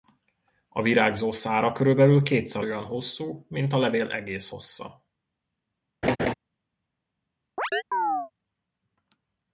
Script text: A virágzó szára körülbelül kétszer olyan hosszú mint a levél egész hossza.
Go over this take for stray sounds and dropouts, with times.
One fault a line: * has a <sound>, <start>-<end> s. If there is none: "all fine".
* has a laugh, 6.0-6.3 s
* has a chirp, 7.6-8.3 s